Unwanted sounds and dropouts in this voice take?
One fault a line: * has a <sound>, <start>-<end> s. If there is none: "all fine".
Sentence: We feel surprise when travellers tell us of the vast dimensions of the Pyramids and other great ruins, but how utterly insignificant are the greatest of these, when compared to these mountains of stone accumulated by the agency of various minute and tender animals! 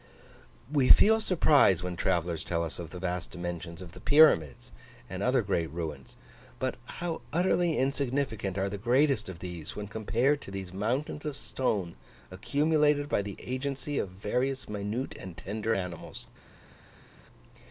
all fine